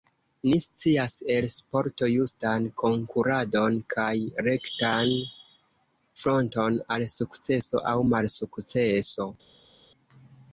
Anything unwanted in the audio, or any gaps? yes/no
no